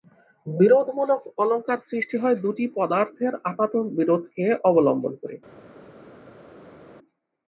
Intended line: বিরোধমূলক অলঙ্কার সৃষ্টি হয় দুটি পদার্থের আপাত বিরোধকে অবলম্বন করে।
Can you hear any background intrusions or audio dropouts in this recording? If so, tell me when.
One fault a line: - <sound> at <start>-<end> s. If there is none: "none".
none